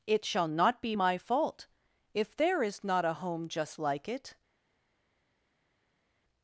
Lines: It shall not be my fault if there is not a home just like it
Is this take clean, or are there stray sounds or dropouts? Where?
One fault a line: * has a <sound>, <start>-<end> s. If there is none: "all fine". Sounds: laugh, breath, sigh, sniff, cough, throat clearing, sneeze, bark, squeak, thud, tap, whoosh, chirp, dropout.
all fine